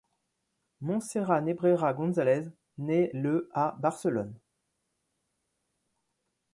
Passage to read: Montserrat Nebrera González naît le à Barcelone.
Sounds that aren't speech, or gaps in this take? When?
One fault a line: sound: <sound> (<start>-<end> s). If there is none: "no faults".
no faults